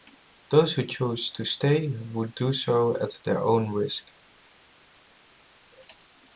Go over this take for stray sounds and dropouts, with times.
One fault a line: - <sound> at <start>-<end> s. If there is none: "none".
none